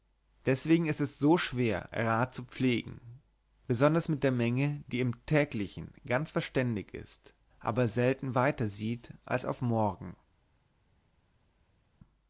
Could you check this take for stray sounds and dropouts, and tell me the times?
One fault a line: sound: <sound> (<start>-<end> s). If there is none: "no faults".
no faults